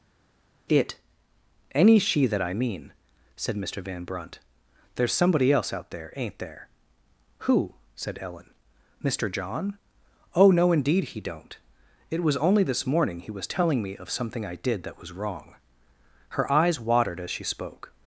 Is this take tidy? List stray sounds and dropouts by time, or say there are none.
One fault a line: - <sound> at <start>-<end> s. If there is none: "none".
none